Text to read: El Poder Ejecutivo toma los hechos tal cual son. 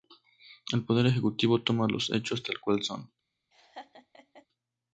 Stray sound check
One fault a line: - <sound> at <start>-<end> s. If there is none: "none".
- laugh at 3.5-4.5 s